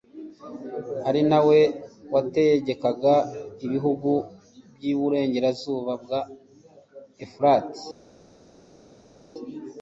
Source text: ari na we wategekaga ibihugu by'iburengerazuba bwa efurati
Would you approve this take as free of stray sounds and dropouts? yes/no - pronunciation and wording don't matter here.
yes